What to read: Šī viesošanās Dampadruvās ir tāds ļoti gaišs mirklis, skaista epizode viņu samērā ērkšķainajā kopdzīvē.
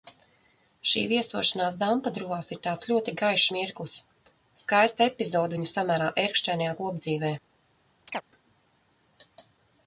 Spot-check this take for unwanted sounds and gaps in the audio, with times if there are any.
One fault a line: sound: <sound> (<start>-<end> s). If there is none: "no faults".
sound: chirp (8.1-8.2 s)